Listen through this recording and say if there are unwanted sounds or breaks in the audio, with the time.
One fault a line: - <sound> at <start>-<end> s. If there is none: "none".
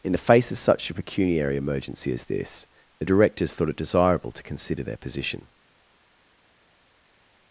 none